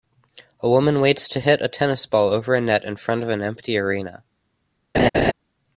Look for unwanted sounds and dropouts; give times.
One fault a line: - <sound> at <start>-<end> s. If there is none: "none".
- laugh at 4.9-5.3 s